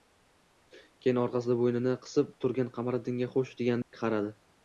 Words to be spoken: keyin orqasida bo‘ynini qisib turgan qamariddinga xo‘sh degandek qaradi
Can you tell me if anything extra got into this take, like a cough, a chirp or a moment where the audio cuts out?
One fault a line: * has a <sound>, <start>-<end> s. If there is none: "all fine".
* has a dropout, 3.8-3.9 s